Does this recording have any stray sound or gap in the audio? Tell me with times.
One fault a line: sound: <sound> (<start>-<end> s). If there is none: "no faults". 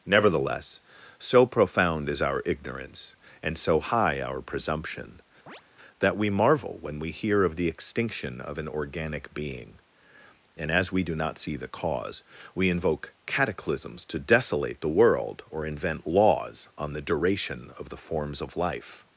sound: chirp (5.5-5.6 s)